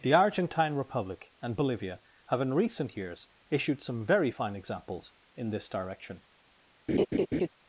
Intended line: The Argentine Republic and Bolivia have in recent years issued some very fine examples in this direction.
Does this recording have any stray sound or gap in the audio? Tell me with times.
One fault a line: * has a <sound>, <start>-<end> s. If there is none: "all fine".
* has a laugh, 6.9-7.5 s